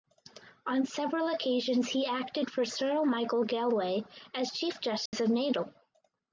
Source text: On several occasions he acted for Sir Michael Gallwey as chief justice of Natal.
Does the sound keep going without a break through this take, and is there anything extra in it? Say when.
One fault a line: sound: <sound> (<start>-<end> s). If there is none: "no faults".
sound: dropout (5.1-5.1 s)